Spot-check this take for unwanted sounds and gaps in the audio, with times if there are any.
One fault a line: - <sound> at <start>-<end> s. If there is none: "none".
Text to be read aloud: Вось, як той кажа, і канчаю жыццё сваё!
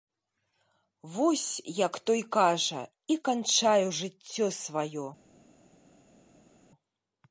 none